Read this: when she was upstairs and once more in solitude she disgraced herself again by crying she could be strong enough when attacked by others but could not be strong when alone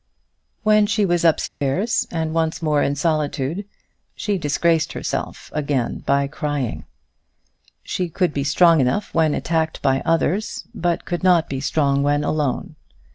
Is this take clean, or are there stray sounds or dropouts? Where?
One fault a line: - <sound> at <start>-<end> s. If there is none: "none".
- dropout at 1.5-1.6 s